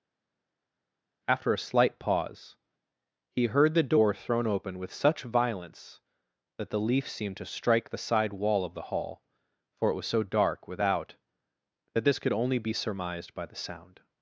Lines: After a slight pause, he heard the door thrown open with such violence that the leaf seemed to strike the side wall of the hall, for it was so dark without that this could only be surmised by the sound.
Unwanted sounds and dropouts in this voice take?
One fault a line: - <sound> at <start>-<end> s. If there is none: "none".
none